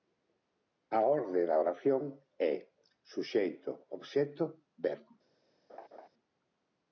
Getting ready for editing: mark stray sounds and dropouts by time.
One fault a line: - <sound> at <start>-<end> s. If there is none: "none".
- laugh at 5.7-6.1 s